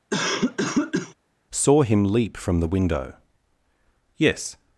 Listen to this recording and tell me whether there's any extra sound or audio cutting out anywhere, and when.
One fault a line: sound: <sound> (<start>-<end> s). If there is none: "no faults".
sound: cough (0.1-1.1 s)